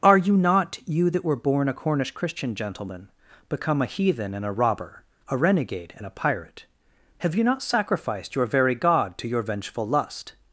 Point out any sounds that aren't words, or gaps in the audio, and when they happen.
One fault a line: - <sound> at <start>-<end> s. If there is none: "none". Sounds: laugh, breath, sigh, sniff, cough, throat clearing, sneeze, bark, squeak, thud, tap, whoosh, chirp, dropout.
none